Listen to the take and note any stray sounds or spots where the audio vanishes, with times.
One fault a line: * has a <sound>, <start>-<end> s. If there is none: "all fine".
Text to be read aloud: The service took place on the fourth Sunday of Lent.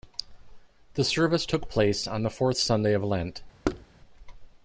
* has a thud, 3.6-3.9 s